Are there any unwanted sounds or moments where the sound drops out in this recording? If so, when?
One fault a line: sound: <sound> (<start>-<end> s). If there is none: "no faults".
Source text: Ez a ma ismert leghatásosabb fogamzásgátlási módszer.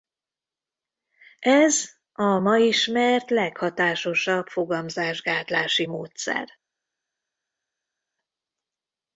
no faults